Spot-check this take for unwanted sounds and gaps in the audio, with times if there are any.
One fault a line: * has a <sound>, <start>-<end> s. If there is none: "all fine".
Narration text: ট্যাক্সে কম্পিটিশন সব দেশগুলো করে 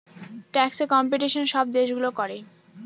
all fine